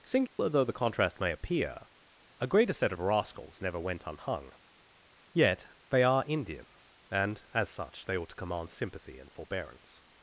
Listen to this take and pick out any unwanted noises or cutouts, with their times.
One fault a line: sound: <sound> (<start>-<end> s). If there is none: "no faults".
sound: dropout (0.3-0.4 s)